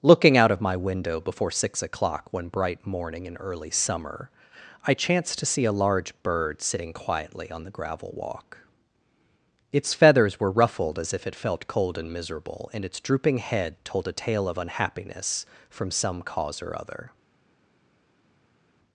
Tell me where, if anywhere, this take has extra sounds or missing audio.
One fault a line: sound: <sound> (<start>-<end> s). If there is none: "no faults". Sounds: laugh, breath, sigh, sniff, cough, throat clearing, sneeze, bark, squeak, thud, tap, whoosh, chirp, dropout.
no faults